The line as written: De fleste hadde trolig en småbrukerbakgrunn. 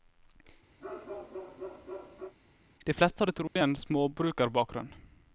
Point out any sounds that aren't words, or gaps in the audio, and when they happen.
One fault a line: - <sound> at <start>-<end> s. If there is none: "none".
- bark at 0.8-2.4 s
- dropout at 3.5-3.6 s